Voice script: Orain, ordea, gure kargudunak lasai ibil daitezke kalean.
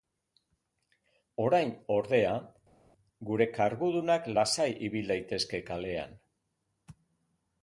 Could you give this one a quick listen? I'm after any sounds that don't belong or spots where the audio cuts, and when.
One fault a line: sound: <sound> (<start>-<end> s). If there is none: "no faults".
no faults